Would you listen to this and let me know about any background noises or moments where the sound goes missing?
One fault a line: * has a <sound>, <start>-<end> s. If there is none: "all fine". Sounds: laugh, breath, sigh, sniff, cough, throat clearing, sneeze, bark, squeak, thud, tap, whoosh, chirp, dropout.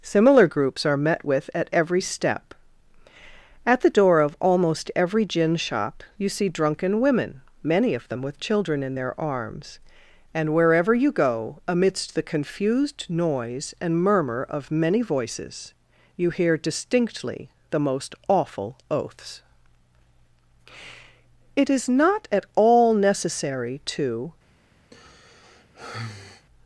* has a sigh, 24.9-26.5 s